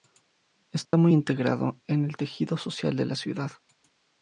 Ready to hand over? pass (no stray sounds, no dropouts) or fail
fail